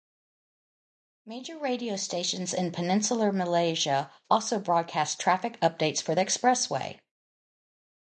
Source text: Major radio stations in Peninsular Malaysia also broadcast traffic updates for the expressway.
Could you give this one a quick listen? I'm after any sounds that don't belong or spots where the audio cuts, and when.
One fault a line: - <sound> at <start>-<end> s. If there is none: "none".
none